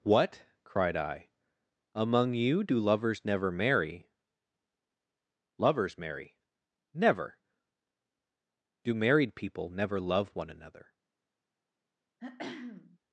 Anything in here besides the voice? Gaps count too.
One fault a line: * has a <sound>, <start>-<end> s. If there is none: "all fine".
* has a throat clearing, 12.2-13.0 s